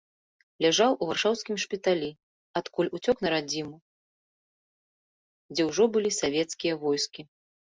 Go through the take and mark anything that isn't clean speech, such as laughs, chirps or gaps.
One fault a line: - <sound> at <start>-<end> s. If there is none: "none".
none